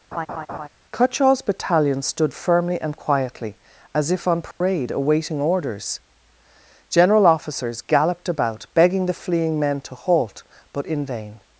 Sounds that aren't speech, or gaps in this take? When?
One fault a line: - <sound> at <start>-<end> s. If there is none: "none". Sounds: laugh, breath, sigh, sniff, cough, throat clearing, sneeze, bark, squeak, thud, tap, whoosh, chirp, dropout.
- laugh at 0.1-0.7 s
- dropout at 4.5-4.6 s